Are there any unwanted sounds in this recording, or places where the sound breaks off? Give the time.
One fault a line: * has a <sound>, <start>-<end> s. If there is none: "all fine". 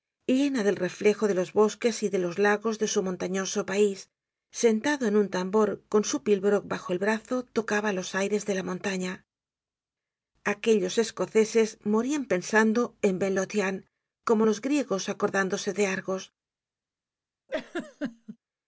* has a laugh, 17.5-18.4 s